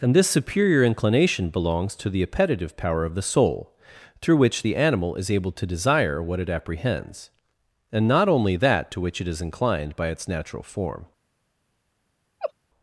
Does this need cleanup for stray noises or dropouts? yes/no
yes